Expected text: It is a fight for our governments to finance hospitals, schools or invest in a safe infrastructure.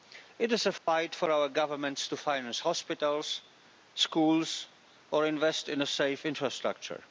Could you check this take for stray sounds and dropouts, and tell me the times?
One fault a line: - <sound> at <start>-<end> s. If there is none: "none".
- dropout at 0.8-0.9 s